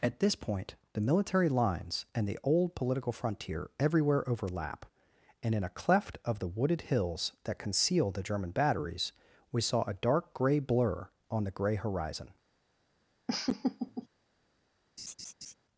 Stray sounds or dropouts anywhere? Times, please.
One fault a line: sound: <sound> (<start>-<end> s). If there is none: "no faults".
sound: laugh (13.3-14.1 s)
sound: laugh (15.0-15.5 s)